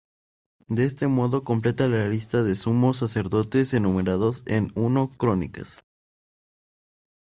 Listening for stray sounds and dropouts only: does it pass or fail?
pass